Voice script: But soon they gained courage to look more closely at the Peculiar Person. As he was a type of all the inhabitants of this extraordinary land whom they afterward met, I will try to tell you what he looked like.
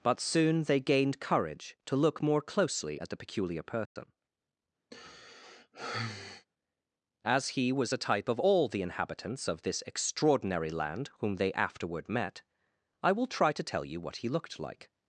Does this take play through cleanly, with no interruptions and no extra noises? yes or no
no